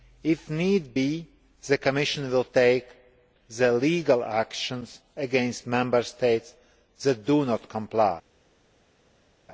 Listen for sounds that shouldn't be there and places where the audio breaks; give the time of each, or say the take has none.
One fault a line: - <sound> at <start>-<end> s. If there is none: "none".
none